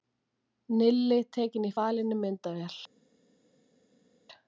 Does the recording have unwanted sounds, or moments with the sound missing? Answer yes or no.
no